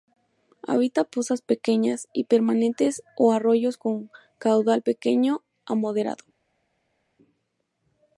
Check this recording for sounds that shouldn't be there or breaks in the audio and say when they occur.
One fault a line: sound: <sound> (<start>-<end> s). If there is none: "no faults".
no faults